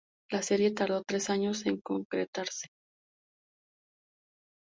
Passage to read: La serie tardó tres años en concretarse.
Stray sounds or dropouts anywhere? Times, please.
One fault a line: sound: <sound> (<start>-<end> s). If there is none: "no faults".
no faults